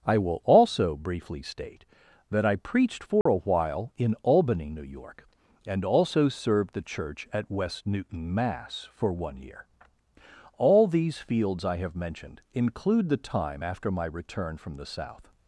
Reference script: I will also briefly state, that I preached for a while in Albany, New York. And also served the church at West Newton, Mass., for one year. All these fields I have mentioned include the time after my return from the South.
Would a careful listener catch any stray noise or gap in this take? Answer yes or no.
yes